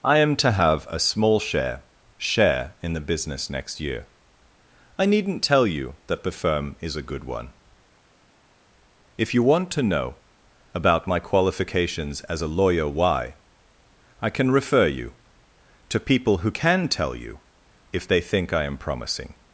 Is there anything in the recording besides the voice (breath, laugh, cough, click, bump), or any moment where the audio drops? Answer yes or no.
no